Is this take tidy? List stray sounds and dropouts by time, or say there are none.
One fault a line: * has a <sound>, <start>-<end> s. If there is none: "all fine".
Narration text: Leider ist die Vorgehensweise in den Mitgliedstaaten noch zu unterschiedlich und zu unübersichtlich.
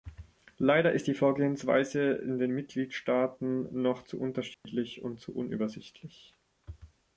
* has a dropout, 4.5-4.6 s